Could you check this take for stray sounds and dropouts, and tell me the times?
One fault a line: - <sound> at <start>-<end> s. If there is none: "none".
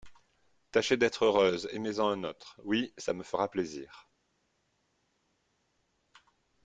none